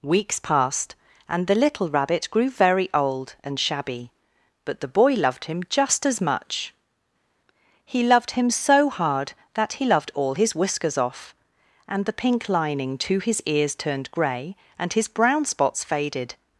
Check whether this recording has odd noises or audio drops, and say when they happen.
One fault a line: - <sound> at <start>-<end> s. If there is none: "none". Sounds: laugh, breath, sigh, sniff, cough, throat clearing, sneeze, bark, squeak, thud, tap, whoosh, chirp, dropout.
none